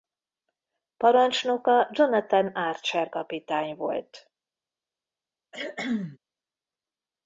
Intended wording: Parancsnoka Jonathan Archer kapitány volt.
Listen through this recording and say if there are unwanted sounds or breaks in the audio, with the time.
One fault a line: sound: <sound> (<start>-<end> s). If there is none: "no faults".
sound: cough (5.5-6.2 s)